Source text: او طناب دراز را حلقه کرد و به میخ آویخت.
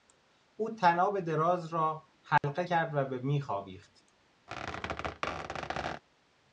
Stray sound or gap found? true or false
true